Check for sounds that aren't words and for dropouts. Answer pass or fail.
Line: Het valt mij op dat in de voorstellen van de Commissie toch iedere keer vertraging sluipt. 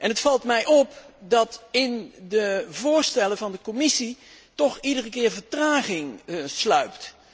pass